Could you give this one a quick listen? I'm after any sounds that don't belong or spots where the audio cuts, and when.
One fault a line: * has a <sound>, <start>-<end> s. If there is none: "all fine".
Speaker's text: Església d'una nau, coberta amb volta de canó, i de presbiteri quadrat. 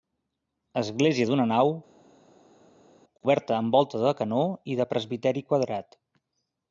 all fine